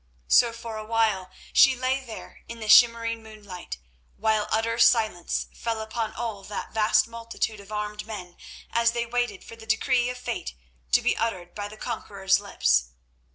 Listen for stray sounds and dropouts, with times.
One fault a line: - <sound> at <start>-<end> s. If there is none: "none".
none